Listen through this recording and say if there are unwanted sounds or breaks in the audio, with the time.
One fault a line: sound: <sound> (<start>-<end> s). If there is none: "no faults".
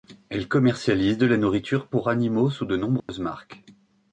sound: dropout (3.0-3.1 s)